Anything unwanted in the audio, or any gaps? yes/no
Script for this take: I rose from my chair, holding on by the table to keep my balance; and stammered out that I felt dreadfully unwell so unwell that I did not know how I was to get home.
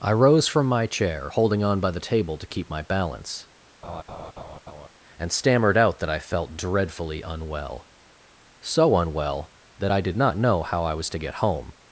yes